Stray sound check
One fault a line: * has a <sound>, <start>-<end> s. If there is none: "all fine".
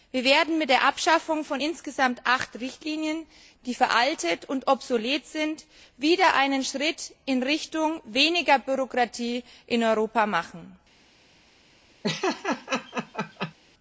* has a laugh, 12.0-13.5 s